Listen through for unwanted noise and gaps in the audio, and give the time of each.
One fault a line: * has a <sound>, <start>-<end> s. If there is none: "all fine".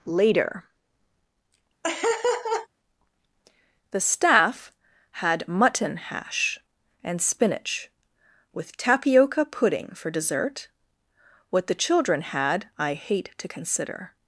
* has a laugh, 1.8-2.7 s